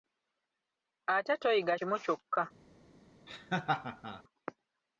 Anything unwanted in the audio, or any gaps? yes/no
yes